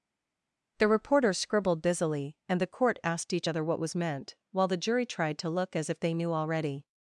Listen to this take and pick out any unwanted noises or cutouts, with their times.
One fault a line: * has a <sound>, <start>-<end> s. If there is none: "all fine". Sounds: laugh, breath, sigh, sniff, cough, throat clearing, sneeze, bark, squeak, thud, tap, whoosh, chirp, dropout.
all fine